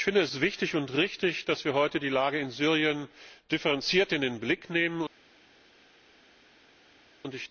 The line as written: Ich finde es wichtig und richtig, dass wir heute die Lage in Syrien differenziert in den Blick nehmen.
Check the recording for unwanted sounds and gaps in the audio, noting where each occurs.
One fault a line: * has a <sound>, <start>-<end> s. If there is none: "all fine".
all fine